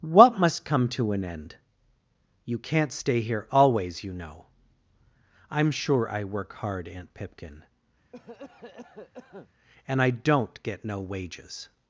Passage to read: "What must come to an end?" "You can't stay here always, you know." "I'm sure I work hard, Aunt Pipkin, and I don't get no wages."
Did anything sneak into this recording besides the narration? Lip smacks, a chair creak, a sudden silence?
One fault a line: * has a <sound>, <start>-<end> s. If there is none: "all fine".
* has a cough, 8.1-9.5 s